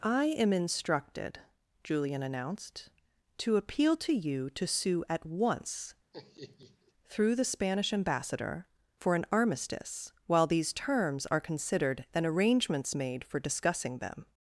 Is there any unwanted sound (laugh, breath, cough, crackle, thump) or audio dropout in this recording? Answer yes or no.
yes